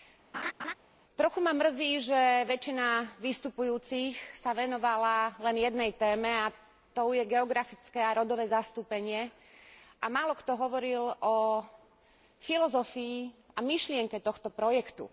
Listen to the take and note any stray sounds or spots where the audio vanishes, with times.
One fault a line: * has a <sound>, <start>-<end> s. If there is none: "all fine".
* has a laugh, 0.3-0.7 s